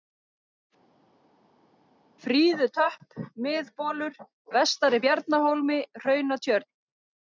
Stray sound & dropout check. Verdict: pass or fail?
pass